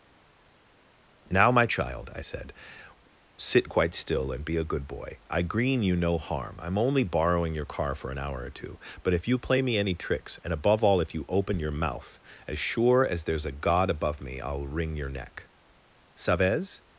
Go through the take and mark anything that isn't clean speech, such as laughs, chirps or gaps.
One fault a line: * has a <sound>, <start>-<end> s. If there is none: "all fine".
all fine